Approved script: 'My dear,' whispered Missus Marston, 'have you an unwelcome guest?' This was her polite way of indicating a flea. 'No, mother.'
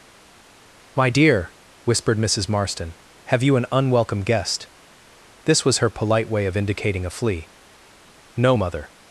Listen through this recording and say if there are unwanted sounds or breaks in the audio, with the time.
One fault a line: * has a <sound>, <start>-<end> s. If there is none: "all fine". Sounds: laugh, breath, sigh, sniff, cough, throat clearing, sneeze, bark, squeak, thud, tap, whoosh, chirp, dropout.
all fine